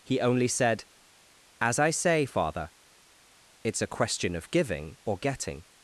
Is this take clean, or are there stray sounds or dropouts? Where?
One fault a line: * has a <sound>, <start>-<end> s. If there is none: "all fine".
all fine